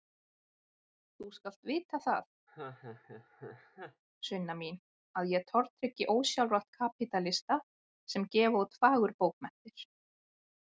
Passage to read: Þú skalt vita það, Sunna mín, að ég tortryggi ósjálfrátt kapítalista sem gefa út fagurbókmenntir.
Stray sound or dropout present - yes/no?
yes